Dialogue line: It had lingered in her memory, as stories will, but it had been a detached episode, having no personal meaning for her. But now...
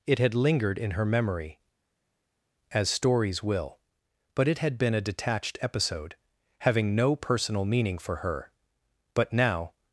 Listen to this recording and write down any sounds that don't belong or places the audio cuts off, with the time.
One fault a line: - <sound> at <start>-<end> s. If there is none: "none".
none